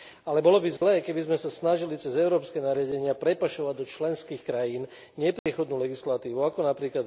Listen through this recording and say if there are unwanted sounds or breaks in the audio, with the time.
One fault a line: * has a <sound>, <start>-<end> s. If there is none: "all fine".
* has a dropout, 0.8-0.8 s
* has a dropout, 5.4-5.5 s